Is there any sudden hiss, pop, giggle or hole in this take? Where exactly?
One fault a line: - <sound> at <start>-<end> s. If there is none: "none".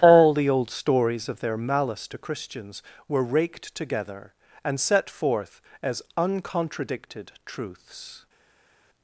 none